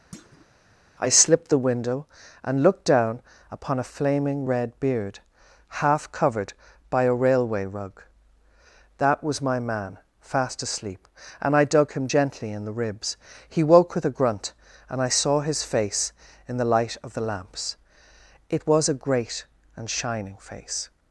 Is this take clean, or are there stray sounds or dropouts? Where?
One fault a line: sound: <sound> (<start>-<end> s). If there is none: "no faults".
sound: thud (0.1-0.5 s)